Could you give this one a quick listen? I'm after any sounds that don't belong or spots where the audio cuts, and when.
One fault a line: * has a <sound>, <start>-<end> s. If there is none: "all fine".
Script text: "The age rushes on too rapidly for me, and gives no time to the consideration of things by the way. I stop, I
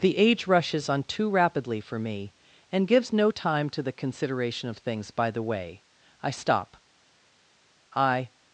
all fine